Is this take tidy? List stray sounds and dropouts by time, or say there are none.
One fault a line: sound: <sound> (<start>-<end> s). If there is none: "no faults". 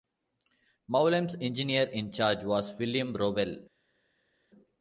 no faults